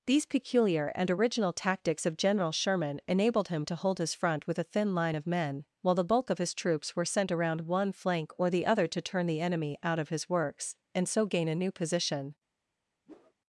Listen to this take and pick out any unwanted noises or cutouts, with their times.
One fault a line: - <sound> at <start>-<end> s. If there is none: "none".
- whoosh at 13.1-13.3 s